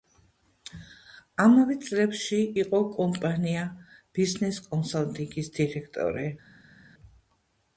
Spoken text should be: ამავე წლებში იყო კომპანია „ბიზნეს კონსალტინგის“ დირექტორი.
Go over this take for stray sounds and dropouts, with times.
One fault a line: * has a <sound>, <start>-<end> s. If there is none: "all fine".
all fine